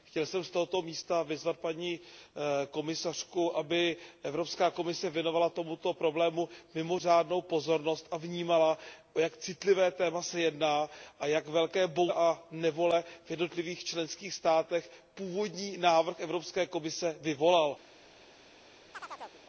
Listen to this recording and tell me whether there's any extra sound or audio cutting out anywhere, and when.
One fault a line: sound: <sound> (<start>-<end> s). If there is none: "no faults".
sound: chirp (18.9-19.4 s)